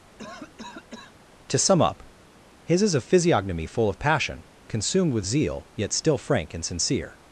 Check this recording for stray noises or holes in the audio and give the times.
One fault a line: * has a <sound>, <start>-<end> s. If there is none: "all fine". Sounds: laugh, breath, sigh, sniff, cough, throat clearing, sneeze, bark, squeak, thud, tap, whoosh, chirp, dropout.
* has a cough, 0.2-1.2 s